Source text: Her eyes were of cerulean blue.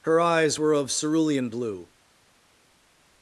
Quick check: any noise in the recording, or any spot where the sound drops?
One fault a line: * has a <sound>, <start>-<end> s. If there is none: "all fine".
all fine